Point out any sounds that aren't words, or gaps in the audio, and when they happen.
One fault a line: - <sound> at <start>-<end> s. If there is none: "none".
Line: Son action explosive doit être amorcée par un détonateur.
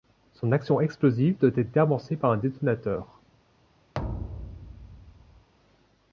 - thud at 3.9-5.5 s